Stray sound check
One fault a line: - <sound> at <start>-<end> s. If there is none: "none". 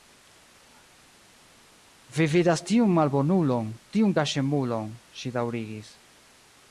none